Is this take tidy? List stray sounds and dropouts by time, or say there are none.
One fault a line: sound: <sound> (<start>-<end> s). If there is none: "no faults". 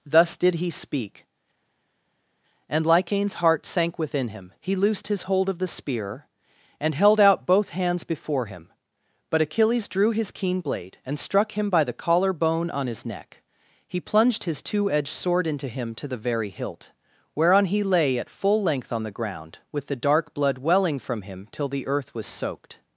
no faults